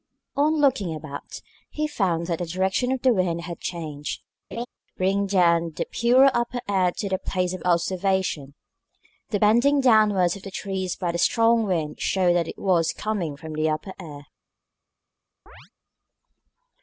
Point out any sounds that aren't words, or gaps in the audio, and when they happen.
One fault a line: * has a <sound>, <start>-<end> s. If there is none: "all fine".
* has a laugh, 4.5-4.7 s
* has a chirp, 15.5-15.7 s